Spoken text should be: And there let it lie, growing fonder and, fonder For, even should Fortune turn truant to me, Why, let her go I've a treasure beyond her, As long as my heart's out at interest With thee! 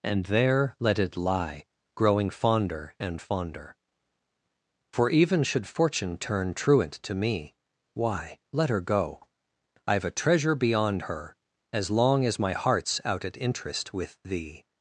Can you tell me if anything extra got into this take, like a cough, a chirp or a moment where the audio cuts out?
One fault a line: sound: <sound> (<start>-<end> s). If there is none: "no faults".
no faults